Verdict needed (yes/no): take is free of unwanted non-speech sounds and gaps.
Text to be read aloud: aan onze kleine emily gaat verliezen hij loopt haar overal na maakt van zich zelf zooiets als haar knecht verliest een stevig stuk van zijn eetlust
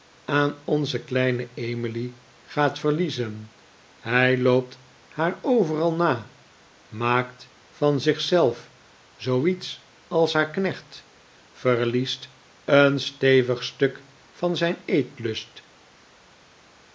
yes